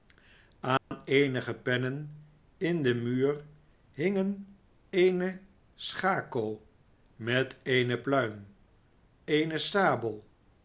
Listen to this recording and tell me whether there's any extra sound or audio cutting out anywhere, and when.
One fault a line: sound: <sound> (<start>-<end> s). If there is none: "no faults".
sound: dropout (0.8-0.9 s)